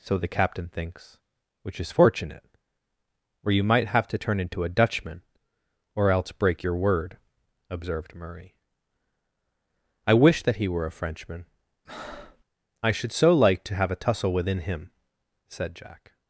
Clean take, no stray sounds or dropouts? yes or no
no